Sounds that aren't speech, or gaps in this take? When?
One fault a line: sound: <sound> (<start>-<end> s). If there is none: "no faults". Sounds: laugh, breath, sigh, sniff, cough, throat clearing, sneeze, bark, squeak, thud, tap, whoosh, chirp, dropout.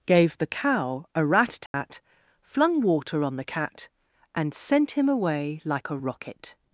sound: dropout (1.7-1.7 s)